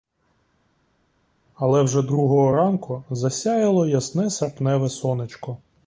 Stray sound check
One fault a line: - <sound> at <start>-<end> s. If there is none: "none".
none